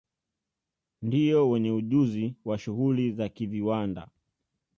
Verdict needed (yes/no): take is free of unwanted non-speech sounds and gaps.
yes